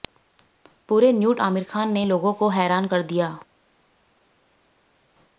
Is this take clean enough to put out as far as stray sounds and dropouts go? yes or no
yes